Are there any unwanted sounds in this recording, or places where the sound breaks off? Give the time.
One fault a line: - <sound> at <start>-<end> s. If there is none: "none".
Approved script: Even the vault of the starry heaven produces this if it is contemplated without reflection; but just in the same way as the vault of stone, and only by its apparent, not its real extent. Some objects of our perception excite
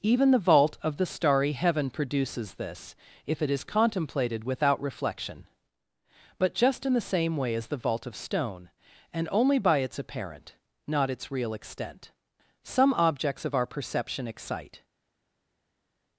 none